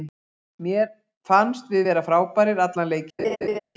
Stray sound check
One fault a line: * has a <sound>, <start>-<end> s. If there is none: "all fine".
* has a laugh, 3.2-3.6 s